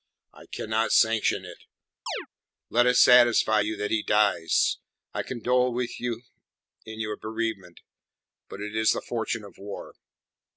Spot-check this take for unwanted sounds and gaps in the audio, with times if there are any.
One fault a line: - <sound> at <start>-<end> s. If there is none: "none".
- chirp at 2.1-2.3 s